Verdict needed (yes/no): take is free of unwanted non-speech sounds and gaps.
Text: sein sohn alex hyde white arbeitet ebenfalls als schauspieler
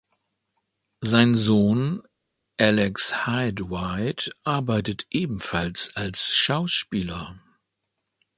yes